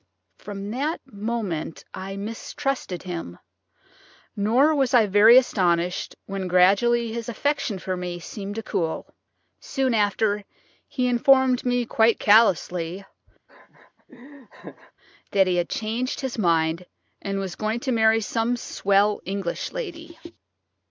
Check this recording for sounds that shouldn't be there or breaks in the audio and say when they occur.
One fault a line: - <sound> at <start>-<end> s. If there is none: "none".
- laugh at 13.5-14.9 s